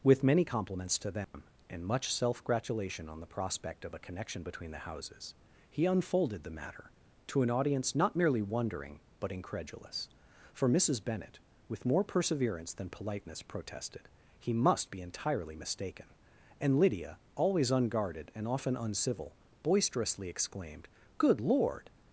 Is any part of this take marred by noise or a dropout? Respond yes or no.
yes